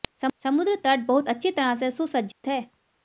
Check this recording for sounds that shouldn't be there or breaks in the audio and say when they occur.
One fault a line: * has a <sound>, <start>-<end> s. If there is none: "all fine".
* has a dropout, 2.3-2.4 s